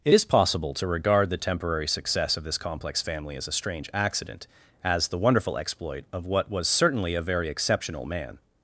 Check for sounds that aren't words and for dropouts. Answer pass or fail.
pass